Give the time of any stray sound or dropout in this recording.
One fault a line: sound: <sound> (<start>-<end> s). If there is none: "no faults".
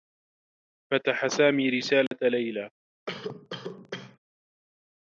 sound: dropout (2.1-2.1 s)
sound: cough (3.1-4.2 s)